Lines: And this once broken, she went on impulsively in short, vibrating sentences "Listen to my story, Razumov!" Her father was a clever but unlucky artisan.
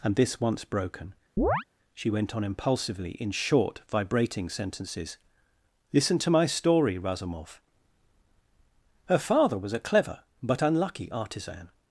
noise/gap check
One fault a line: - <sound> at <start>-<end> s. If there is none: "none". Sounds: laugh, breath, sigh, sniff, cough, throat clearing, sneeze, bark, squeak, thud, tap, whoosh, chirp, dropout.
- chirp at 1.4-1.6 s